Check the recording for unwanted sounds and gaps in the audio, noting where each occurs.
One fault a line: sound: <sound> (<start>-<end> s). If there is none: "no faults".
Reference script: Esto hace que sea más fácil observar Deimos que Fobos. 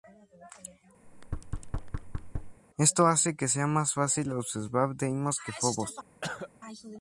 sound: thud (1.0-2.6 s)
sound: cough (6.2-6.5 s)